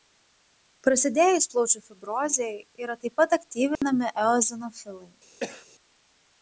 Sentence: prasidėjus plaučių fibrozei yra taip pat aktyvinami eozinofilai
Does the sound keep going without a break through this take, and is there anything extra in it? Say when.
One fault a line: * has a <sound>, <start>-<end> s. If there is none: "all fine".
* has a dropout, 3.8-3.8 s
* has a cough, 5.4-5.7 s